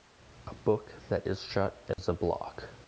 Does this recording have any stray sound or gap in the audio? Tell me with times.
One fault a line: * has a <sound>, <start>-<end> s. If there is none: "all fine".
* has a dropout, 1.9-2.0 s